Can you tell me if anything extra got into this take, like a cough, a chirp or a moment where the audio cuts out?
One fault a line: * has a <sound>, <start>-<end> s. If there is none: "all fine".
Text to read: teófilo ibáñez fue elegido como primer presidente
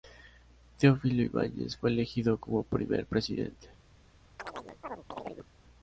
* has a chirp, 4.4-5.5 s